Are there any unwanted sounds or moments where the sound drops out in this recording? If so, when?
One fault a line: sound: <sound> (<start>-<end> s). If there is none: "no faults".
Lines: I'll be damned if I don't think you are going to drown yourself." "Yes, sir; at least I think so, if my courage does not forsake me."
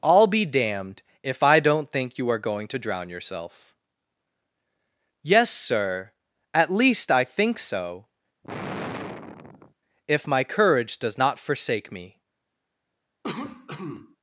sound: sigh (8.4-9.7 s)
sound: cough (13.2-14.2 s)